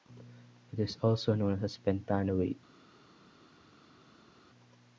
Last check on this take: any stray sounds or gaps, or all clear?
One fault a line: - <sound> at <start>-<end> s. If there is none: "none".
none